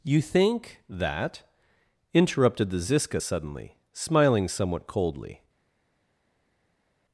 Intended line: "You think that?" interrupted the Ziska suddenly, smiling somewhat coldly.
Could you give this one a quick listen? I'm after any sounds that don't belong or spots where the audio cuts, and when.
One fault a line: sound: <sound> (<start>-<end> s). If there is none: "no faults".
no faults